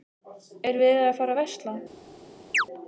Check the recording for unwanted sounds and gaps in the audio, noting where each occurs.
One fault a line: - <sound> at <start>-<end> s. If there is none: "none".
- chirp at 2.5-2.7 s